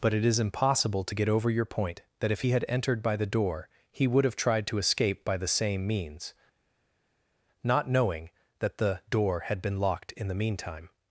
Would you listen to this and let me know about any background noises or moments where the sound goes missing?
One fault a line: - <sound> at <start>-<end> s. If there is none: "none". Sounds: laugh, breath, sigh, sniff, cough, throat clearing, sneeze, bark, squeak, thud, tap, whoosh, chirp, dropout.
none